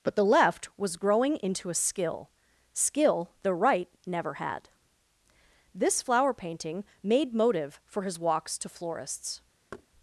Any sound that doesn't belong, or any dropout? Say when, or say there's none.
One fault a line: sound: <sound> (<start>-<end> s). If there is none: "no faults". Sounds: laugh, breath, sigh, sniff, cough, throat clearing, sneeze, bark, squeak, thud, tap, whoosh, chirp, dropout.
sound: thud (9.7-9.9 s)